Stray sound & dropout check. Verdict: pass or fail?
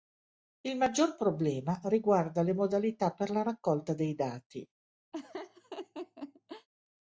fail